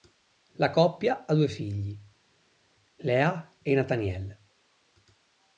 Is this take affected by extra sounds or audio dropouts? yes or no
no